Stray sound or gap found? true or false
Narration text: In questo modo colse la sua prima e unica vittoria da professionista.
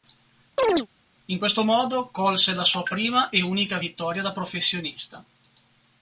true